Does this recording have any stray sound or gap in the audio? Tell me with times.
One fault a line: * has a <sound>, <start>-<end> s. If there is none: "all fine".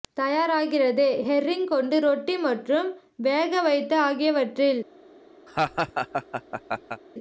* has a laugh, 5.5-7.0 s